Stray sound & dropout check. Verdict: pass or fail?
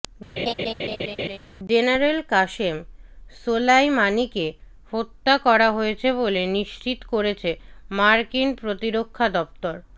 fail